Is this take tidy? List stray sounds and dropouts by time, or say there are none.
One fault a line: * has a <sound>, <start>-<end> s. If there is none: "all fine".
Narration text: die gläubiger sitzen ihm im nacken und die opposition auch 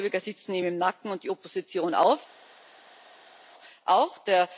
all fine